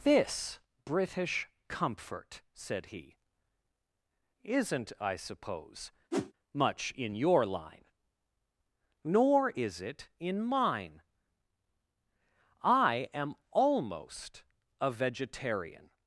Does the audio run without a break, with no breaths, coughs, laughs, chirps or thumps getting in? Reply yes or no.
no